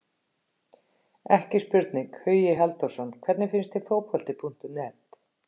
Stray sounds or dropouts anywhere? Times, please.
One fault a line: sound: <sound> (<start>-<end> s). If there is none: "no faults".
no faults